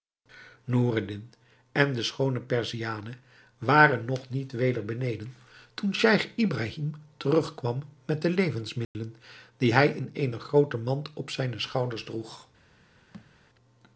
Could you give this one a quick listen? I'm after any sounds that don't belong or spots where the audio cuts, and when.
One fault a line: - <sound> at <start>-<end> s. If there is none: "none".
- dropout at 8.8-8.9 s
- thud at 13.1-13.3 s